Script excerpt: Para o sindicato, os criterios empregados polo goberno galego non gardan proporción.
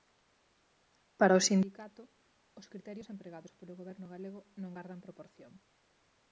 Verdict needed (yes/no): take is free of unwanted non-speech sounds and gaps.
yes